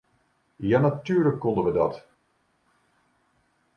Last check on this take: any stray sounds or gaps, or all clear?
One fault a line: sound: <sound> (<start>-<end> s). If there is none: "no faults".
no faults